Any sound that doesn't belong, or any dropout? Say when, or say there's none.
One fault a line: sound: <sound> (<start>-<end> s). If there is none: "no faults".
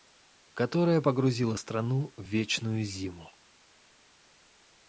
no faults